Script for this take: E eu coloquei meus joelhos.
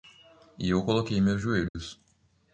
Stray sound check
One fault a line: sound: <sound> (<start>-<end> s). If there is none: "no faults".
sound: dropout (1.7-1.8 s)